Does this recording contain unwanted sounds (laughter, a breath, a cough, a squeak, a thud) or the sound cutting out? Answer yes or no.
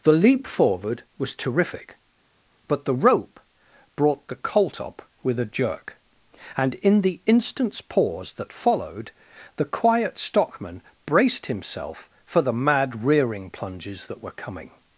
no